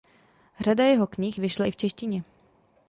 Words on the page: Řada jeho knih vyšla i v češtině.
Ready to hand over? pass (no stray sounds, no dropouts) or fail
pass